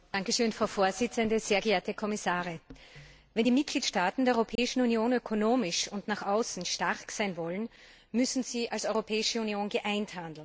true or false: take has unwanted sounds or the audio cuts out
true